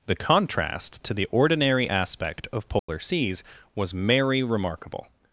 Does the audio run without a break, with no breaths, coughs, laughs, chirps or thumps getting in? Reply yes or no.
no